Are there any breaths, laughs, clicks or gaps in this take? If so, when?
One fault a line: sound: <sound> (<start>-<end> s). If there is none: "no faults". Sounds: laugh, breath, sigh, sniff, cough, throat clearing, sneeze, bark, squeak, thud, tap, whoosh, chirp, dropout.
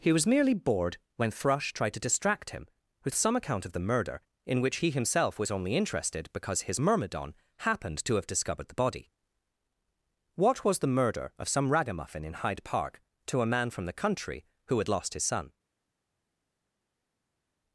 no faults